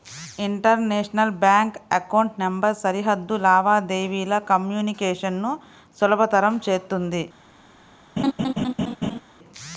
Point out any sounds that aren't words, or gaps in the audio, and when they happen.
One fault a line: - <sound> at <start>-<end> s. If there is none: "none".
- laugh at 8.2-9.2 s